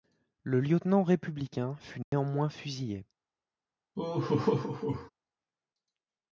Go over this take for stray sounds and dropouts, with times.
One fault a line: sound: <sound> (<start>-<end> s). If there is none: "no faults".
sound: dropout (2.0-2.1 s)
sound: laugh (4.0-5.1 s)